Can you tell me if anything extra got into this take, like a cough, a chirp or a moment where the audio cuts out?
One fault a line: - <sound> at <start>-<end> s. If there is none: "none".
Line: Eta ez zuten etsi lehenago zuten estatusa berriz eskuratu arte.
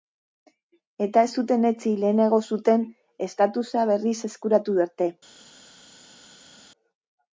none